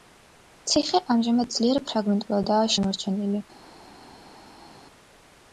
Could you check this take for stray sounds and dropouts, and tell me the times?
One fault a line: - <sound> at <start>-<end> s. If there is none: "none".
none